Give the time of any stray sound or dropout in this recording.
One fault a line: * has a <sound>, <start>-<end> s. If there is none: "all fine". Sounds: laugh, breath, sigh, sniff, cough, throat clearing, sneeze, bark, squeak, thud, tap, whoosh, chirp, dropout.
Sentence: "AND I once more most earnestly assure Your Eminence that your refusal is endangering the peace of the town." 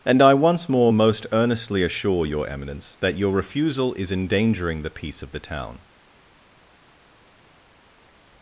all fine